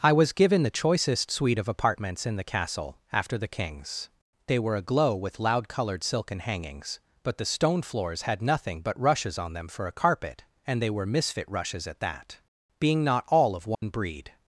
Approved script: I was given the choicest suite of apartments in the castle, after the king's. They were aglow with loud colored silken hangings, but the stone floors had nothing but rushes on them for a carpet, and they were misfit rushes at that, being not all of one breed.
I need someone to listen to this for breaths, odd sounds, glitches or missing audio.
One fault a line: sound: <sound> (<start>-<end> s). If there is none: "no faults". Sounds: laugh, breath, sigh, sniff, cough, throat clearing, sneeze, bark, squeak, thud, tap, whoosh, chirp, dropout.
sound: dropout (13.7-13.8 s)